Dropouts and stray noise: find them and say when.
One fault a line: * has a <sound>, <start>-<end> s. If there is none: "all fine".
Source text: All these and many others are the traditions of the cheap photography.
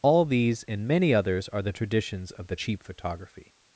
all fine